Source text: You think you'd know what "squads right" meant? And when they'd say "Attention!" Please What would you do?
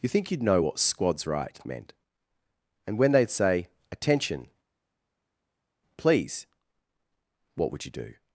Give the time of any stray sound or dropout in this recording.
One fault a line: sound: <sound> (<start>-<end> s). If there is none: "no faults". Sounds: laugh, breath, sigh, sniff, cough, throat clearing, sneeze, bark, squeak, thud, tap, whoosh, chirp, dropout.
no faults